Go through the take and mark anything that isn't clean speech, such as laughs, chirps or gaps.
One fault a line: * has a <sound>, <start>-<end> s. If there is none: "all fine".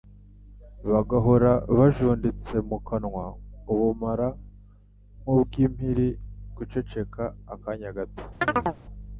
* has a chirp, 8.4-8.8 s